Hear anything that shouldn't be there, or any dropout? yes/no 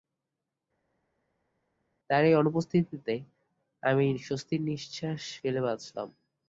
no